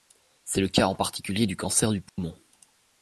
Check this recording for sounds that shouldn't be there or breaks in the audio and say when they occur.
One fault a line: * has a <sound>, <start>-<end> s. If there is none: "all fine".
* has a dropout, 2.1-2.2 s